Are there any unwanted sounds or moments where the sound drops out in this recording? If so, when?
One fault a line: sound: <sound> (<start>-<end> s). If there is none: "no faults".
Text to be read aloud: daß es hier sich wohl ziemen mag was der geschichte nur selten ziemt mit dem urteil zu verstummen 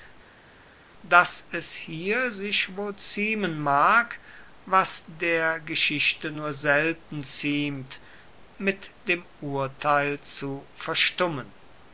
no faults